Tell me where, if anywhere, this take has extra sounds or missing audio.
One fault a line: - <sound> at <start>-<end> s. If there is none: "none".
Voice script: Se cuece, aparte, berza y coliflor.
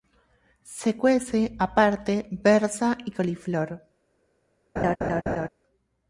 - laugh at 4.8-5.5 s